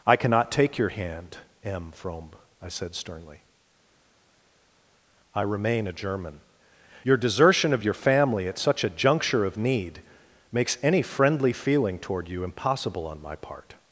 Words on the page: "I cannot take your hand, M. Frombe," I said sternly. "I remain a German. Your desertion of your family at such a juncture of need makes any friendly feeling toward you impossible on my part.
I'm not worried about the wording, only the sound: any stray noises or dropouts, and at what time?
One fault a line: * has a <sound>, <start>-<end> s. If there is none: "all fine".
all fine